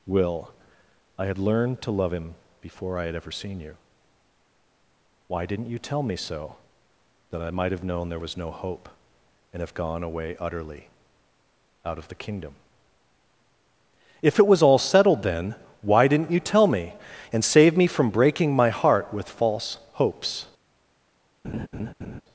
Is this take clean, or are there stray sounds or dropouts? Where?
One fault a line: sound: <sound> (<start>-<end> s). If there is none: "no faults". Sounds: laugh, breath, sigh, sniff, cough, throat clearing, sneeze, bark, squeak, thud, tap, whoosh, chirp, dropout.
sound: laugh (21.4-22.2 s)